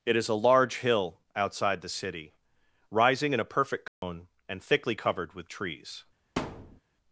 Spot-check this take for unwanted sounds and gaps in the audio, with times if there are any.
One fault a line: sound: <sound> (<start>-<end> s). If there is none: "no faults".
sound: dropout (3.9-4.0 s)
sound: thud (6.4-6.8 s)